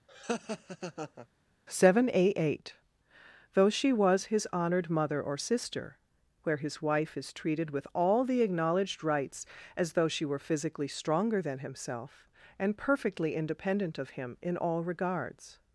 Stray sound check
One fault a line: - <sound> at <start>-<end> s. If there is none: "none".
- laugh at 0.1-1.3 s